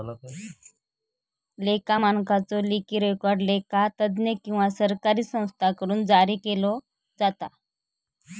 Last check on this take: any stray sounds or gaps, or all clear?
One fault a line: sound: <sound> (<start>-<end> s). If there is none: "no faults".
no faults